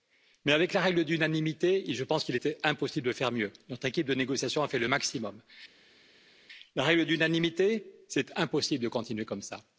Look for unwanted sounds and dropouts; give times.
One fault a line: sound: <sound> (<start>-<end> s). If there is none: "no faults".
no faults